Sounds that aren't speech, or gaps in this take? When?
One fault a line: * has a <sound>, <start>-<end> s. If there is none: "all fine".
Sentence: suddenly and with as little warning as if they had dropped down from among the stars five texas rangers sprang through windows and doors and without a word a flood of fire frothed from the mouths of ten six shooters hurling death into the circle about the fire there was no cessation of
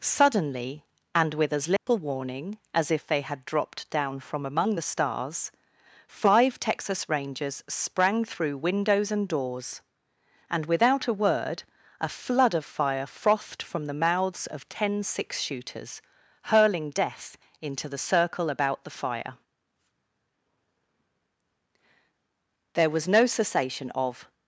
* has a dropout, 1.8-1.9 s